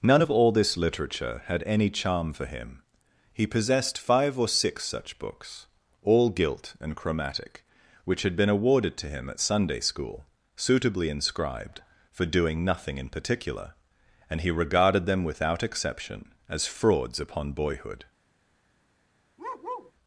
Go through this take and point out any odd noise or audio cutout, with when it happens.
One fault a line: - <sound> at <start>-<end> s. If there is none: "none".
- bark at 19.4-19.9 s